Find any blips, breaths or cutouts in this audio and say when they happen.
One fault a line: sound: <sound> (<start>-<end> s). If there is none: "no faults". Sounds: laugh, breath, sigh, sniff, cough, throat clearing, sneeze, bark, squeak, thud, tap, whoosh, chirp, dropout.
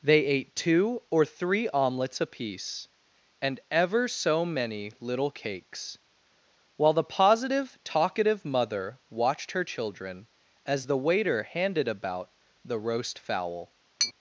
sound: tap (14.0-14.1 s)